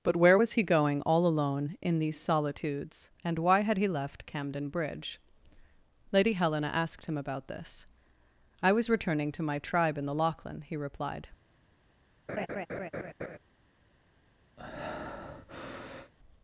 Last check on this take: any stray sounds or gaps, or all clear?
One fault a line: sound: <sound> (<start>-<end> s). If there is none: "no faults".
sound: laugh (12.3-13.4 s)
sound: breath (14.6-16.1 s)